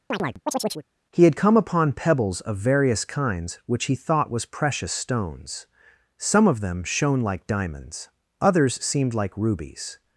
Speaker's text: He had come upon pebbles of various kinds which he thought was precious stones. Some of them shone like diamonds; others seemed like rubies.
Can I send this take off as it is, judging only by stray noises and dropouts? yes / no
no